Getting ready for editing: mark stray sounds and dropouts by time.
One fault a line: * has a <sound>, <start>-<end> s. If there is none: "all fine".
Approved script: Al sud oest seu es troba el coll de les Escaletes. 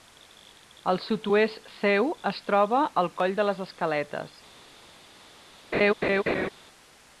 * has a laugh, 5.7-6.5 s